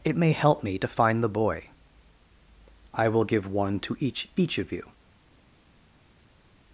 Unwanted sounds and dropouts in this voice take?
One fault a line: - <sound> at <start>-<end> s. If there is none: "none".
none